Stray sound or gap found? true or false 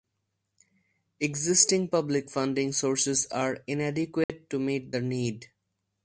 true